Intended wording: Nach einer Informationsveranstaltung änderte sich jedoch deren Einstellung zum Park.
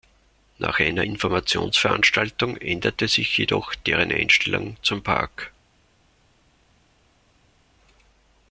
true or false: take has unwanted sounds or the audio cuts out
false